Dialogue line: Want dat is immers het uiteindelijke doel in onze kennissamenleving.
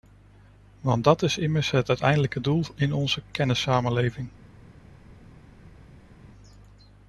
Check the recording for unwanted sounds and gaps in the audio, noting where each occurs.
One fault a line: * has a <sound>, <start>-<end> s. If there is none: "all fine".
all fine